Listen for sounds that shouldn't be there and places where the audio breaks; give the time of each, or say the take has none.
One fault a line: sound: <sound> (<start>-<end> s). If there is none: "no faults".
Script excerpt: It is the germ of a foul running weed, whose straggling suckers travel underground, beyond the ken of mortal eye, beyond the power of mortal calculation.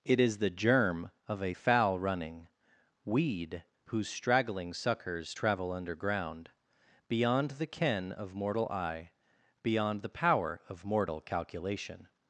no faults